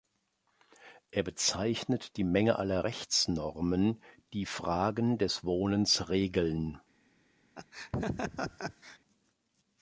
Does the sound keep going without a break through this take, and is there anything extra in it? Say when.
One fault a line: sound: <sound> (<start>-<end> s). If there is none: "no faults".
sound: laugh (7.6-9.0 s)